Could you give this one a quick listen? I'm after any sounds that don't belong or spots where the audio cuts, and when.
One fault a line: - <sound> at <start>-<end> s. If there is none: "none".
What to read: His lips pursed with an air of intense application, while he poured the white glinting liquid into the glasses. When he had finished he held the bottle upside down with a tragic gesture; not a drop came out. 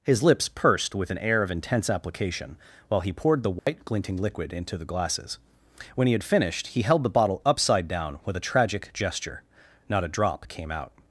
- dropout at 3.6-3.7 s